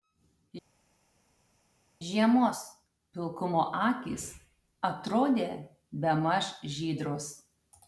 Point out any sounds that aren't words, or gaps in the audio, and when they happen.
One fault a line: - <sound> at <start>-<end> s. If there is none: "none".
none